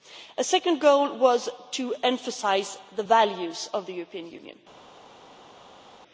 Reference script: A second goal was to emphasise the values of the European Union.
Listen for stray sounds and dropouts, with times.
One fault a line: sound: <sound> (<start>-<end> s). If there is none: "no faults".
no faults